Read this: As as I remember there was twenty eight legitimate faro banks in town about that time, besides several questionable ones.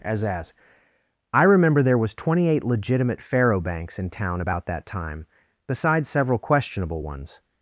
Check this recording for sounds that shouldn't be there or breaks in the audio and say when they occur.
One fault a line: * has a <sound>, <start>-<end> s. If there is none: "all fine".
all fine